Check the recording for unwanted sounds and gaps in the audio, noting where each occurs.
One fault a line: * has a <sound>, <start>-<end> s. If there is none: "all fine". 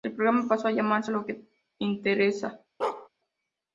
* has a bark, 2.8-3.1 s